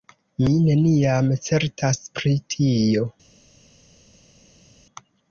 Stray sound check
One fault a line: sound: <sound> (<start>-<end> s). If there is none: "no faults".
no faults